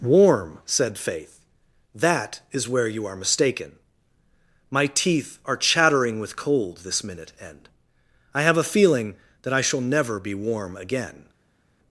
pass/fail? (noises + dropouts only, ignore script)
pass